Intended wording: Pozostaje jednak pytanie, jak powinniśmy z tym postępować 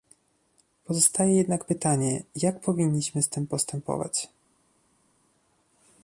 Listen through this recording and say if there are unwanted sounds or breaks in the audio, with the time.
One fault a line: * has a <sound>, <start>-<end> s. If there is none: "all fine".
all fine